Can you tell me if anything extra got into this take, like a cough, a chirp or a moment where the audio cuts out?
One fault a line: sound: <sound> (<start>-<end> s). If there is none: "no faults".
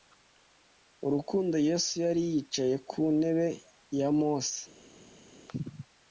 no faults